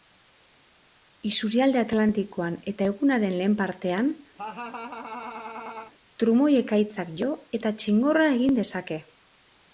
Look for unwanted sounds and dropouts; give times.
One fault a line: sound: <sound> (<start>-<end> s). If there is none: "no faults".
sound: laugh (4.4-5.9 s)